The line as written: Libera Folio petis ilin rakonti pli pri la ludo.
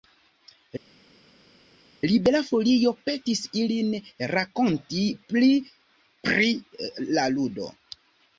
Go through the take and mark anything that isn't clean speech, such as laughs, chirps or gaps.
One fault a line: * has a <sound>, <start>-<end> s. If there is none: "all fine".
all fine